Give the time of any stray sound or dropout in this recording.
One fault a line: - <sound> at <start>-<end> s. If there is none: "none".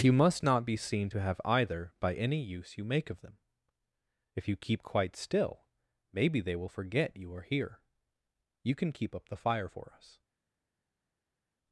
none